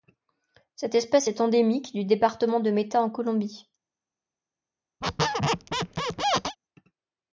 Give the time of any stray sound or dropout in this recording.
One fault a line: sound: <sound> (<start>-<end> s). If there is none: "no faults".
sound: squeak (5.0-6.6 s)